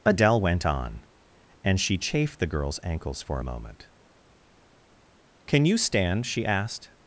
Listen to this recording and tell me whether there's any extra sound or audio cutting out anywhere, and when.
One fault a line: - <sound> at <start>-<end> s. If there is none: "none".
none